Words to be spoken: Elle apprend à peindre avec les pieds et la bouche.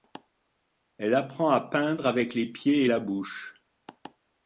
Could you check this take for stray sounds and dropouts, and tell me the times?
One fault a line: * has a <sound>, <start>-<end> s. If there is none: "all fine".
all fine